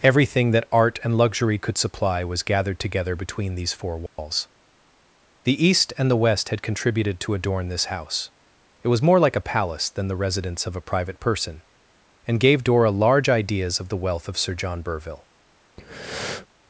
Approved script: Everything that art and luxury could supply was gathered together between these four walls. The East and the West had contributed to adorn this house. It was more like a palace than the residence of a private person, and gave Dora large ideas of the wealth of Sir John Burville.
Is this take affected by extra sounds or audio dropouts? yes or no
yes